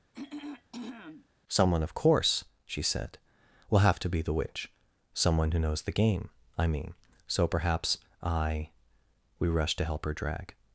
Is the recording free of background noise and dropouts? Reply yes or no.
no